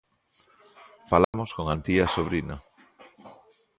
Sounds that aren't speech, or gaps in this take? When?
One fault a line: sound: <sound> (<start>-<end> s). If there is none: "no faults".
sound: dropout (1.2-1.3 s)